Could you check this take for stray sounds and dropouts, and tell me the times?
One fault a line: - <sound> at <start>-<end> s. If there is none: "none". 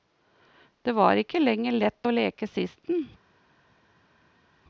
none